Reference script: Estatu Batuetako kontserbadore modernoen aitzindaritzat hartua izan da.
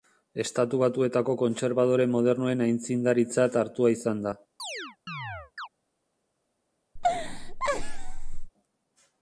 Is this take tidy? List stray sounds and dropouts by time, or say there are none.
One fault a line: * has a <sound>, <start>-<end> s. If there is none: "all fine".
* has a chirp, 4.6-5.7 s
* has a laugh, 7.0-8.5 s